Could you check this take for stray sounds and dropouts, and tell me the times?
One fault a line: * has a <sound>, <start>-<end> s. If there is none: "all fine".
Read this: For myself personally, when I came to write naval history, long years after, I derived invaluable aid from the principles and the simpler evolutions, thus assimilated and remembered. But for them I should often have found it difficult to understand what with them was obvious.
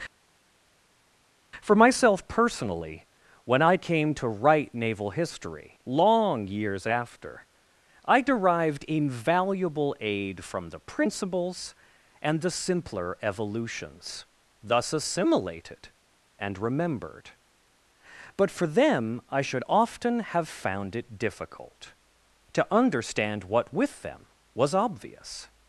all fine